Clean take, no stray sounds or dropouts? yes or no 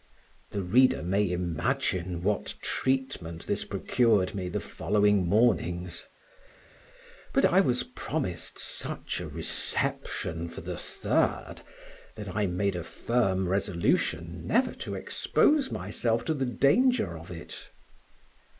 yes